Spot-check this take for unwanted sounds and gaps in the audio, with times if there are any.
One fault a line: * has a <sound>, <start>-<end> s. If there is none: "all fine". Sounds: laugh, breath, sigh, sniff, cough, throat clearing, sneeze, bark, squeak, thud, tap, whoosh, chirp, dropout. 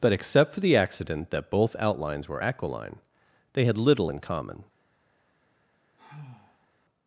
* has a sigh, 6.0-6.7 s